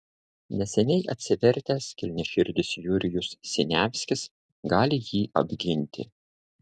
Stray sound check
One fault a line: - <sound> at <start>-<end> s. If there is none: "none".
none